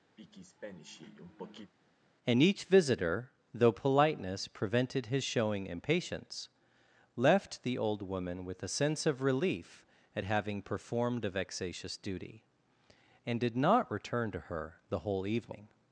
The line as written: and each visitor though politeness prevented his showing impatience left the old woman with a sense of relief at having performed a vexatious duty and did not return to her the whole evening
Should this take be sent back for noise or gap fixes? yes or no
yes